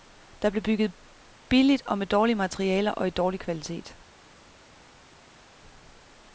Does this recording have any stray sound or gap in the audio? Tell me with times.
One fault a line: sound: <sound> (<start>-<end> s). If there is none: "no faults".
no faults